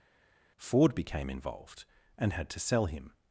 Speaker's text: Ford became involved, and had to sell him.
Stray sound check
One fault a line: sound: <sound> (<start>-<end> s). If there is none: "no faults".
no faults